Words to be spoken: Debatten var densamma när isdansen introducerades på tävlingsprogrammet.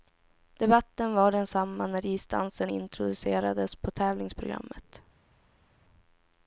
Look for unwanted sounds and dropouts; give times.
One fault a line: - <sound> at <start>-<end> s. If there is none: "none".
none